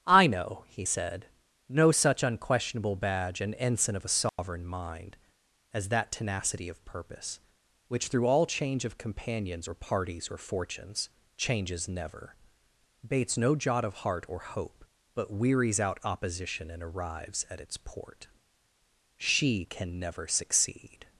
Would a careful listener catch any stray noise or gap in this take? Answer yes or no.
yes